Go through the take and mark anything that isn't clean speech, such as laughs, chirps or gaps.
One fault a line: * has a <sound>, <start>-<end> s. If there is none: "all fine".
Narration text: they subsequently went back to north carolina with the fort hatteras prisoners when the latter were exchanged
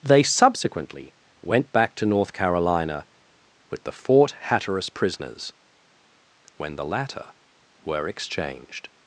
all fine